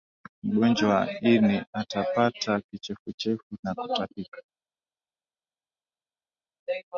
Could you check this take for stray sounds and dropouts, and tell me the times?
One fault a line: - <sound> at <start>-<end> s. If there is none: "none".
none